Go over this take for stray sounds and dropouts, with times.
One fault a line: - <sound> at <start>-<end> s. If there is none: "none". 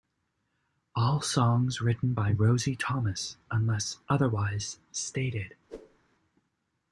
- whoosh at 5.7-6.0 s